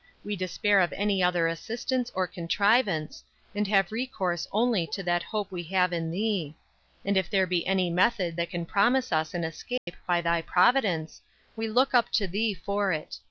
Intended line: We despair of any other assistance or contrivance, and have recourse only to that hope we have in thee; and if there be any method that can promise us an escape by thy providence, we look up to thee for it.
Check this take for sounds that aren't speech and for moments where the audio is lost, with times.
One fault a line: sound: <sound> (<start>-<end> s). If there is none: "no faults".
sound: dropout (9.8-9.9 s)